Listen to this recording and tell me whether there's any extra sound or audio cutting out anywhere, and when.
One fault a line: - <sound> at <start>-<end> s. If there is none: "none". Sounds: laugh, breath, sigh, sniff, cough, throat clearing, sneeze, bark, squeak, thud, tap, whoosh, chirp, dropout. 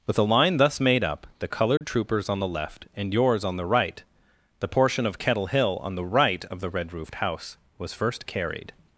- dropout at 1.8-1.8 s